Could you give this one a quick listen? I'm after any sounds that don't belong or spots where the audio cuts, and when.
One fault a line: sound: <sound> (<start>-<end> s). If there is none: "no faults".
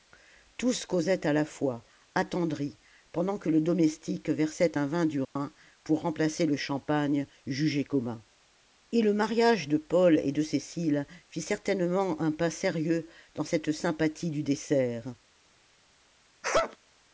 sound: dropout (5.2-5.4 s)
sound: sneeze (16.4-16.8 s)